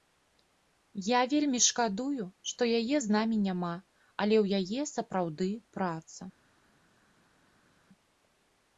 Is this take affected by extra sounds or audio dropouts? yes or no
no